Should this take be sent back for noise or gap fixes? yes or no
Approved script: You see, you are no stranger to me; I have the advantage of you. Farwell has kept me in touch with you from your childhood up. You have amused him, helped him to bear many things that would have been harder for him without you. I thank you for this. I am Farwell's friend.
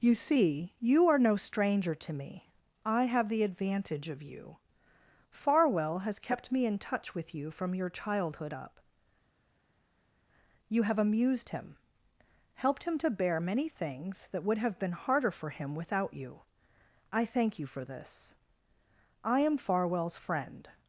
no